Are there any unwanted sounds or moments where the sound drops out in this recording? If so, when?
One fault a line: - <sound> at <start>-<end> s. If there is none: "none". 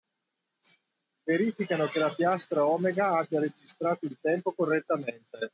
none